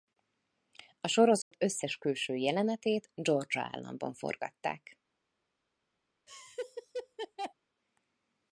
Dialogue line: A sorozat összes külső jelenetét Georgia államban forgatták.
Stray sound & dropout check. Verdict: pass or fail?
fail